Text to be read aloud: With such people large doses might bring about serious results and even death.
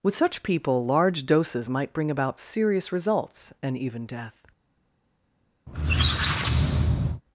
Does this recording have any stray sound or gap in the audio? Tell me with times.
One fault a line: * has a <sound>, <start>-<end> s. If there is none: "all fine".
* has a squeak, 5.7-7.2 s